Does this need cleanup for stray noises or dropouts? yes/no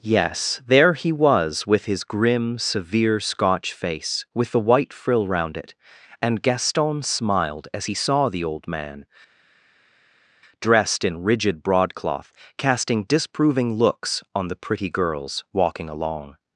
no